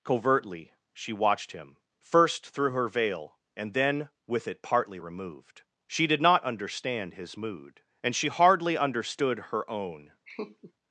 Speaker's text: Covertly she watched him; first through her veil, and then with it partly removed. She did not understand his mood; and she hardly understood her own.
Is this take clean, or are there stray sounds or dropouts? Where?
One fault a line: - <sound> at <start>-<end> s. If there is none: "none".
- laugh at 10.3-10.7 s